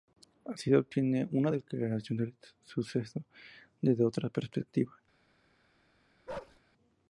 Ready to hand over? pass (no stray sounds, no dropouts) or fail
fail